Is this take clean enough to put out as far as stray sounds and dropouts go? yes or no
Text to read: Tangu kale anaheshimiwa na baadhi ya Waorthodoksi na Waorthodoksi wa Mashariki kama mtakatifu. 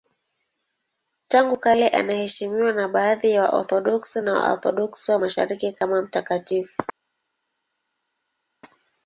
yes